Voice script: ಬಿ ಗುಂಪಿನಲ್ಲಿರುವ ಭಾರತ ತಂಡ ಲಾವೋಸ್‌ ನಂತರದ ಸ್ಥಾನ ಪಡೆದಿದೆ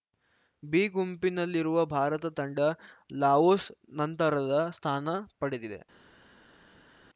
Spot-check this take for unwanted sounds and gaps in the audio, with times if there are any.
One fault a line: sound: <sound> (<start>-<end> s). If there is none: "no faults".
no faults